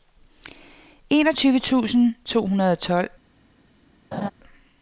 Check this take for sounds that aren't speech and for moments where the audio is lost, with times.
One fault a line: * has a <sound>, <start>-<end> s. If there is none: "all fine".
* has a laugh, 4.1-4.3 s